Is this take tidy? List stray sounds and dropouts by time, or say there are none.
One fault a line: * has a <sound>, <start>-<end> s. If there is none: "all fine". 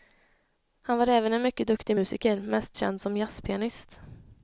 all fine